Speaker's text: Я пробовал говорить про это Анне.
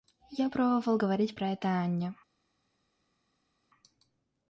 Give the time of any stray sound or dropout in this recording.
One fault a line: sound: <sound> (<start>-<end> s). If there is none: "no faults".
no faults